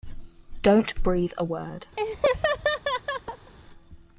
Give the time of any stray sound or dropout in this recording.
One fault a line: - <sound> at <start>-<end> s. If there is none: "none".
- laugh at 2.0-3.5 s